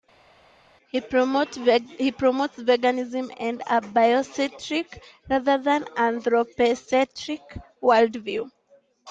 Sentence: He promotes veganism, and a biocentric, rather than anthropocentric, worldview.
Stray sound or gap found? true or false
false